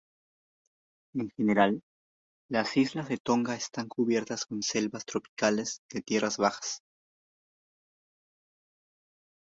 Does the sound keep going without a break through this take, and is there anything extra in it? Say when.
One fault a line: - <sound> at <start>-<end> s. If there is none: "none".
none